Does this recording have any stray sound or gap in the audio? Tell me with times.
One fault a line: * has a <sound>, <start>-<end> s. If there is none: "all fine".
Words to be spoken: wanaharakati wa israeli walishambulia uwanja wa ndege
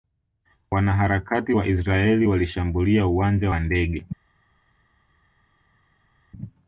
all fine